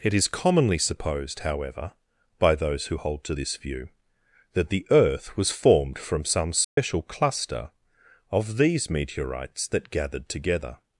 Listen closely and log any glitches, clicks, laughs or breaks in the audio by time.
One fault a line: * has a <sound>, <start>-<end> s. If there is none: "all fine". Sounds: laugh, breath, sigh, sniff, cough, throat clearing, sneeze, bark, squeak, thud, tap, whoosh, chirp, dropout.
* has a dropout, 6.6-6.8 s